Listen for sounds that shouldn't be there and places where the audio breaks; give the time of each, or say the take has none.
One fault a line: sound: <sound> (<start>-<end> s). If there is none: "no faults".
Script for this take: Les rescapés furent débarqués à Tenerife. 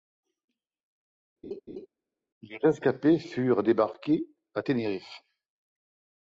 sound: laugh (1.4-1.9 s)